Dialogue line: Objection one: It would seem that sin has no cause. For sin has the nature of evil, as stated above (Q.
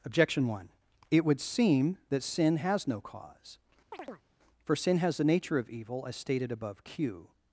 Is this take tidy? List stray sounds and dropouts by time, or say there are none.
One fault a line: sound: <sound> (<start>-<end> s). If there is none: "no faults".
sound: chirp (3.9-4.2 s)